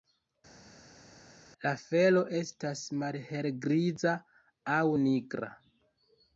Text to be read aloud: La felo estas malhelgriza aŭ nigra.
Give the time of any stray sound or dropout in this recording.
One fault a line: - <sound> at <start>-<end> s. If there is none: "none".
none